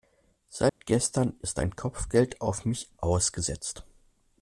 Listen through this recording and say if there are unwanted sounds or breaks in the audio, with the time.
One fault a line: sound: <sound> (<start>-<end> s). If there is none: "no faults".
sound: dropout (0.7-0.8 s)